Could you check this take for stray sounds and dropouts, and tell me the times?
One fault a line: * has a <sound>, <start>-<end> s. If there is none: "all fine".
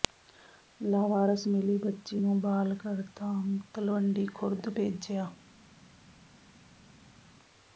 all fine